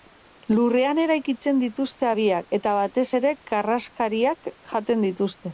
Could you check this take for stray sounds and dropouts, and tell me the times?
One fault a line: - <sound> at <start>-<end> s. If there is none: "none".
none